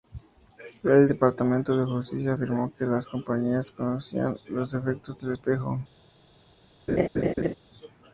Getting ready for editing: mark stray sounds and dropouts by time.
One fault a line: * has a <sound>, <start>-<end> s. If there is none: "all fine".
* has a laugh, 6.9-7.5 s